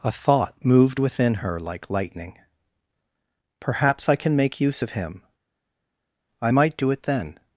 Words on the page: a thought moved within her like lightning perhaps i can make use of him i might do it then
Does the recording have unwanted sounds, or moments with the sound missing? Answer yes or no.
no